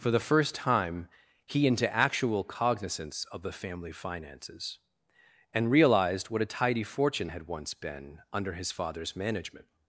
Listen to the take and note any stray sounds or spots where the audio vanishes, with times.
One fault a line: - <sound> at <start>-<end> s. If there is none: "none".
none